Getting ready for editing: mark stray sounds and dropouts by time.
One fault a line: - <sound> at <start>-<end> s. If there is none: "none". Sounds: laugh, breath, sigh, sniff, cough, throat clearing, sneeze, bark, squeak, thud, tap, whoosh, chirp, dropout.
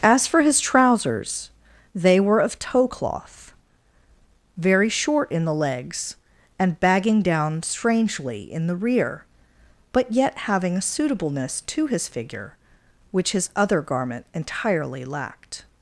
none